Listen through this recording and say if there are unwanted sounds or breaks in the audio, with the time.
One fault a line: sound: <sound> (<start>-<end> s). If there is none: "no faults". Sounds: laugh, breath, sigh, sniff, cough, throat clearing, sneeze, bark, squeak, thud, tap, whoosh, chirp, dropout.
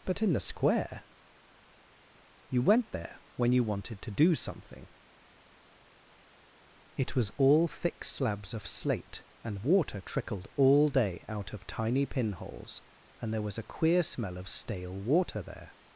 no faults